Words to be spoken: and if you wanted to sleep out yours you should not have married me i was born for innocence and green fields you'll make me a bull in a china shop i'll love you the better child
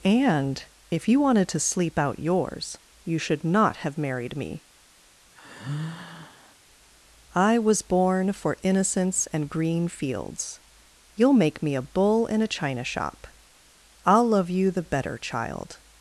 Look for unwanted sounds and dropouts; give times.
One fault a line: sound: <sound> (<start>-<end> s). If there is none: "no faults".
sound: sigh (5.4-6.6 s)